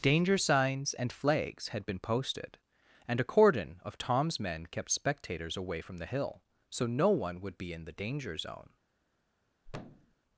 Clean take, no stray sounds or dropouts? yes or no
no